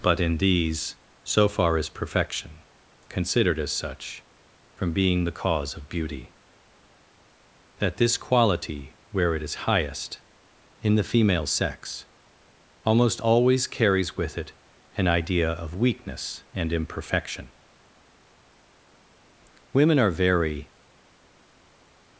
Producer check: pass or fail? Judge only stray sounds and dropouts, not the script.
pass